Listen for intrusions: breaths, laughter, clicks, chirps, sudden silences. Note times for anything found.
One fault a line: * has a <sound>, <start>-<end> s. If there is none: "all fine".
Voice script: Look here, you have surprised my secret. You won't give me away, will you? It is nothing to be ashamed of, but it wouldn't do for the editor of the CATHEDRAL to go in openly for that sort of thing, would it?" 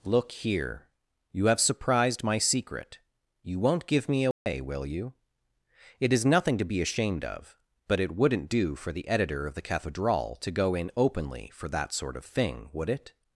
* has a dropout, 4.3-4.5 s